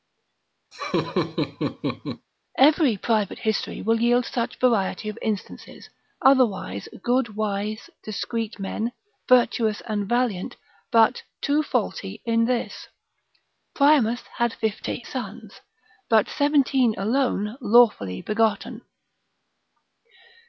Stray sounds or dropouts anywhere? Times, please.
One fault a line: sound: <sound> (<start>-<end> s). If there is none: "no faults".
sound: laugh (0.7-2.3 s)